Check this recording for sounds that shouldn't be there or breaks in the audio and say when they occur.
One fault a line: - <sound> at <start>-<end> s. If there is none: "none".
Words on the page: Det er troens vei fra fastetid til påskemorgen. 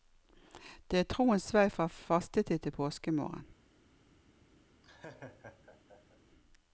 - laugh at 4.8-6.2 s